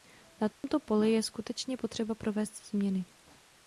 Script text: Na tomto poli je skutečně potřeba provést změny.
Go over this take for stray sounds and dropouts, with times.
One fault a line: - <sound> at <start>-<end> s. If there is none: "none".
- dropout at 0.5-0.6 s